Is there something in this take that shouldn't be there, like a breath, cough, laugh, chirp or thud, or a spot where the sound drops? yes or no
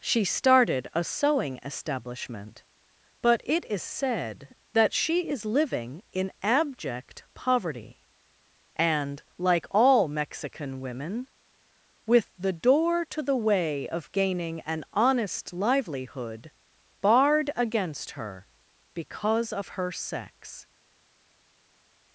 no